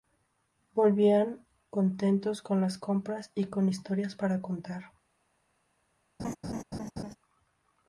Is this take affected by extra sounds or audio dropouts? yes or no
yes